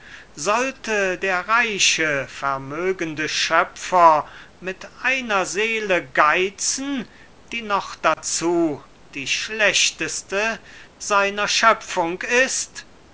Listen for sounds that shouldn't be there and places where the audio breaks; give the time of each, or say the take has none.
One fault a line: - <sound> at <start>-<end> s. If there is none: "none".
- dropout at 8.1-8.2 s